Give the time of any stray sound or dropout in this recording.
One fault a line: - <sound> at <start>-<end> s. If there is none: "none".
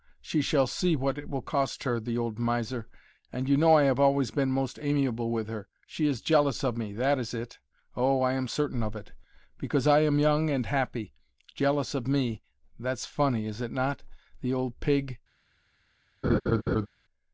- laugh at 16.2-16.9 s